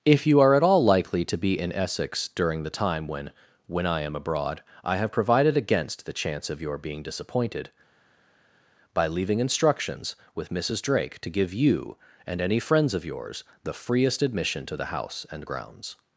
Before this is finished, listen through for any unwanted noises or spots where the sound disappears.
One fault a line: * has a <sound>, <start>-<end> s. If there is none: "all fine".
all fine